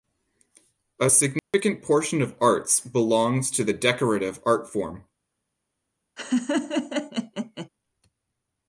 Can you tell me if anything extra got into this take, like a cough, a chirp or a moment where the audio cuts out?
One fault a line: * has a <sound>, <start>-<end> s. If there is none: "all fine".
* has a dropout, 1.4-1.5 s
* has a laugh, 6.2-7.7 s